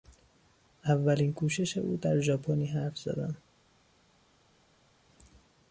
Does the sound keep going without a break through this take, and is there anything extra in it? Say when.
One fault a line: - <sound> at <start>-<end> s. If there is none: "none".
none